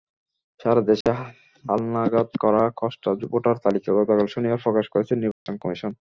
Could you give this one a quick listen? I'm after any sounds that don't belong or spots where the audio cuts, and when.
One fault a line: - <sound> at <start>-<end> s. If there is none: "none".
- dropout at 1.0-1.1 s
- dropout at 5.3-5.5 s